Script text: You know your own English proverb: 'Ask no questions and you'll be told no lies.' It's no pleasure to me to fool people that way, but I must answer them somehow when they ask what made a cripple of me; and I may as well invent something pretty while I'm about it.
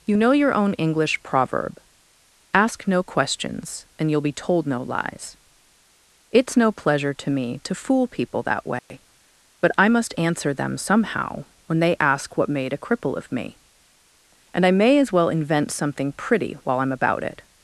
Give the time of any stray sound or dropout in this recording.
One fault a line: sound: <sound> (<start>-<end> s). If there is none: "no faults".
sound: dropout (8.8-8.9 s)